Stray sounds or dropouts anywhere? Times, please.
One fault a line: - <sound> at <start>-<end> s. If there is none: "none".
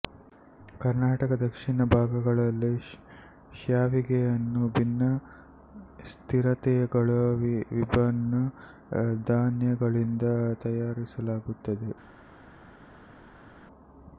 none